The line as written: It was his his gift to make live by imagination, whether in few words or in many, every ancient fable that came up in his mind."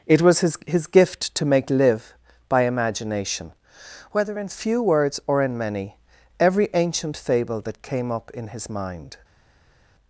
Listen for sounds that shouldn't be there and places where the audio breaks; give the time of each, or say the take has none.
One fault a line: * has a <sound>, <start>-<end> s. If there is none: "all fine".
all fine